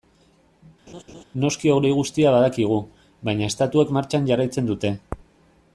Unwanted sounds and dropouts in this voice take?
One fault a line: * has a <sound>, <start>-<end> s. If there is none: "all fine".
* has a laugh, 0.9-1.2 s